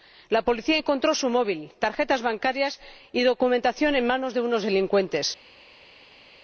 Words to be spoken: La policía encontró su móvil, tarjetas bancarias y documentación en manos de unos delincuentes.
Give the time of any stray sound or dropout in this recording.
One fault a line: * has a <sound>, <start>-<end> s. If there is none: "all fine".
all fine